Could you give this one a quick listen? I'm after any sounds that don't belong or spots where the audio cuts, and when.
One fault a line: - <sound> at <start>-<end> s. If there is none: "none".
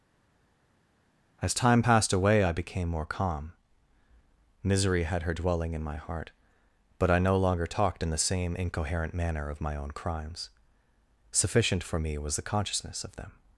none